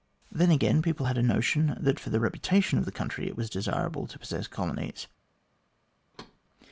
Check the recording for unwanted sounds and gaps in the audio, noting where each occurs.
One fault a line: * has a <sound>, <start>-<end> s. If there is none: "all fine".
* has a thud, 6.1-6.4 s